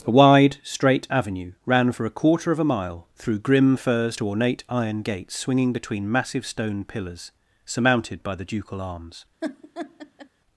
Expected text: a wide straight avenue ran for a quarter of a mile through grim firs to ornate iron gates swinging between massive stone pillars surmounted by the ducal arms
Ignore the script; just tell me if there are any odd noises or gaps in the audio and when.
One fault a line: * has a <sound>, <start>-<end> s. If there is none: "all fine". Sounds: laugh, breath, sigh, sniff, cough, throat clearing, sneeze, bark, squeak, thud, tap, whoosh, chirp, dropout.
* has a laugh, 9.4-10.3 s